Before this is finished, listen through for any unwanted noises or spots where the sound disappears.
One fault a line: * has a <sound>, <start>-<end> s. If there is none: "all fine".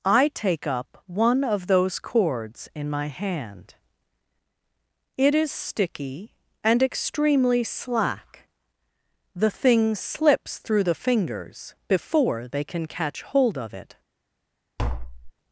* has a tap, 14.8-15.3 s